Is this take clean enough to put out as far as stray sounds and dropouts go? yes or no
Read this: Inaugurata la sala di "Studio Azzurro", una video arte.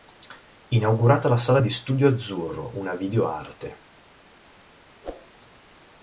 no